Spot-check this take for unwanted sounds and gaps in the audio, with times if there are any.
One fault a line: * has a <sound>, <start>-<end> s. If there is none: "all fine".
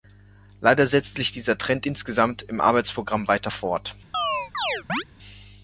* has a chirp, 4.1-5.0 s